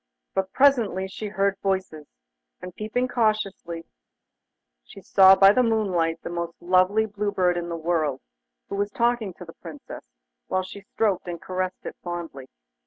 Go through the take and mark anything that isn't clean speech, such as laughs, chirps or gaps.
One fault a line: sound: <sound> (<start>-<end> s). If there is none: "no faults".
no faults